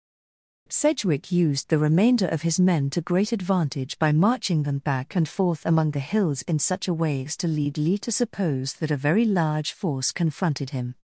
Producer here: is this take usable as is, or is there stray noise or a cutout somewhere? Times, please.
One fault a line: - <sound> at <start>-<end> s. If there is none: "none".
none